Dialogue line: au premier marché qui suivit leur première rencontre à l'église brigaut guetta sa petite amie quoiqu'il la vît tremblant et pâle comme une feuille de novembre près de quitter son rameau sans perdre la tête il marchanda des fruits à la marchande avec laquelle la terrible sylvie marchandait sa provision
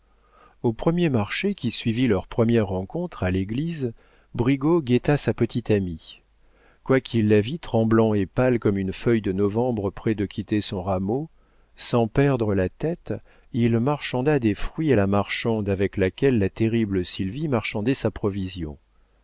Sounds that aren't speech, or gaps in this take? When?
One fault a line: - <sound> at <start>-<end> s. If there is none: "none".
none